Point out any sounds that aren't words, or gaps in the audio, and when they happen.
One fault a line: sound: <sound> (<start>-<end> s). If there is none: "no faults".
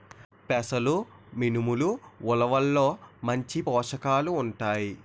no faults